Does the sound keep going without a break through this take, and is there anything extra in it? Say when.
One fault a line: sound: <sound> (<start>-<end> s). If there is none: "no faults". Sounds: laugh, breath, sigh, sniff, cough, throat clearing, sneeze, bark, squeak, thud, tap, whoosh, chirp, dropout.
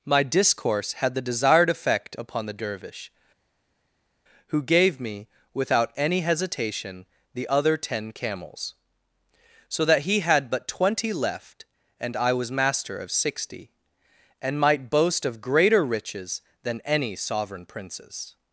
no faults